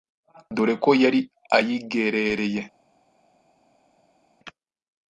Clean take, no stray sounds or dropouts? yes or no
yes